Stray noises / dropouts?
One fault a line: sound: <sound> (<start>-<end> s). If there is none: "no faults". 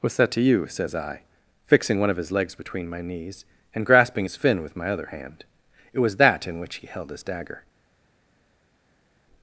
no faults